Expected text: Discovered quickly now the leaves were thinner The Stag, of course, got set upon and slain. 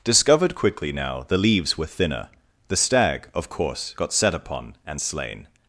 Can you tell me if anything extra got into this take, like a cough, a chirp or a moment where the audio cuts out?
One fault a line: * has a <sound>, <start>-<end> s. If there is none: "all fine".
all fine